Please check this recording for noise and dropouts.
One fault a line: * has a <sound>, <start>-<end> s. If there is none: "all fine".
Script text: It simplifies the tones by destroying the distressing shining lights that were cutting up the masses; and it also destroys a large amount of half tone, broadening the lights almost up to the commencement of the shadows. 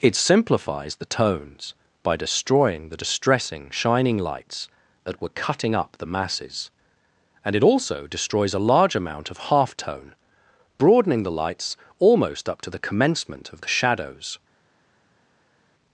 all fine